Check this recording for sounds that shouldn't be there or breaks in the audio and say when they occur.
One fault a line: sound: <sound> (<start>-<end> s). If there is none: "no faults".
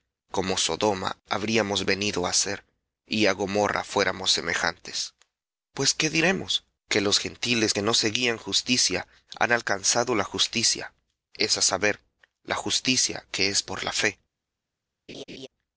sound: laugh (15.1-15.5 s)